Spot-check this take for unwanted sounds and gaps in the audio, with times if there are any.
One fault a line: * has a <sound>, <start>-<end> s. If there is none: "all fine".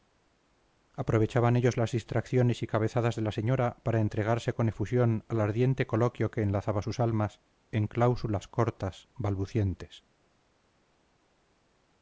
all fine